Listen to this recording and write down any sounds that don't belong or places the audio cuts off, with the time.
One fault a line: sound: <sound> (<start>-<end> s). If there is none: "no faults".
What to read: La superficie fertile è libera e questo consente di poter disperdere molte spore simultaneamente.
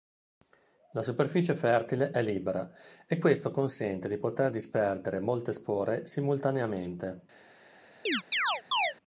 sound: chirp (8.1-8.9 s)